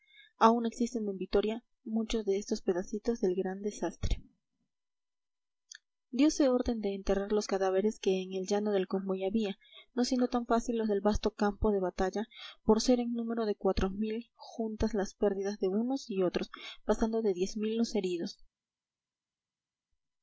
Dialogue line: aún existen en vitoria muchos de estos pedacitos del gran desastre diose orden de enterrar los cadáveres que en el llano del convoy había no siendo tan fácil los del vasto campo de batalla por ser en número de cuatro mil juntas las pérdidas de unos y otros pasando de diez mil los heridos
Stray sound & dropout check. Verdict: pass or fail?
pass